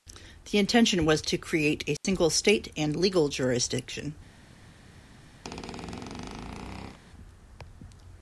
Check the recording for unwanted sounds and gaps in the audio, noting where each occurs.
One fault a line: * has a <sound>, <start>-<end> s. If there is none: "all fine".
* has a dropout, 2.0-2.0 s
* has a squeak, 5.4-7.0 s